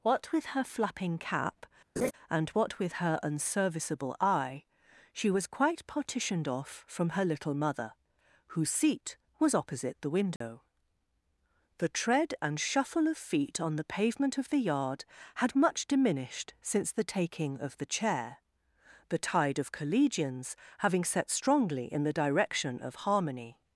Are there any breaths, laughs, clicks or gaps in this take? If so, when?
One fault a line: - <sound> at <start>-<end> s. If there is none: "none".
- laugh at 2.0-2.1 s
- dropout at 10.4-10.4 s